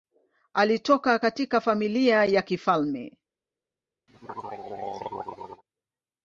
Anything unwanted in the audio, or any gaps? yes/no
yes